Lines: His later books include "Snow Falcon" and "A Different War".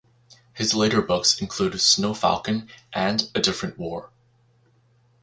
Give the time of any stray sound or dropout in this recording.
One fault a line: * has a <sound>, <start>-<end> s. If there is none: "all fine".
all fine